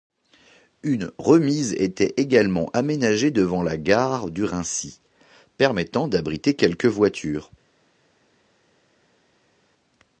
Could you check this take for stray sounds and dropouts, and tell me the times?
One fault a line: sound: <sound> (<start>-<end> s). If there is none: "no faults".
no faults